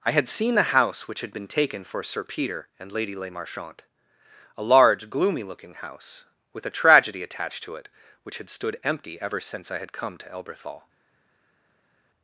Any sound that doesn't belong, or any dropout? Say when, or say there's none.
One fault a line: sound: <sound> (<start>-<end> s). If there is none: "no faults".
no faults